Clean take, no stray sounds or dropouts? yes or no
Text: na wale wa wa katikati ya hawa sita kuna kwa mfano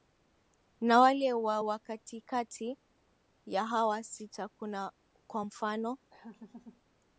no